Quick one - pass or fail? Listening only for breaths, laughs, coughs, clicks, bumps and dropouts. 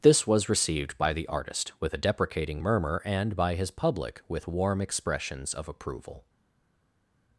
pass